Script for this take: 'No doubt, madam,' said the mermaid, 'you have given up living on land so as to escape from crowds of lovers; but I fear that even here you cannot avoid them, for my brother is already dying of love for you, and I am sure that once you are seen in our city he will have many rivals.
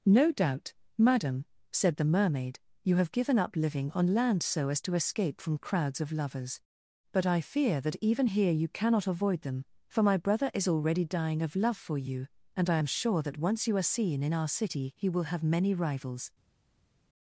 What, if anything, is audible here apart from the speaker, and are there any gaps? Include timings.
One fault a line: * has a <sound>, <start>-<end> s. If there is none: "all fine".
all fine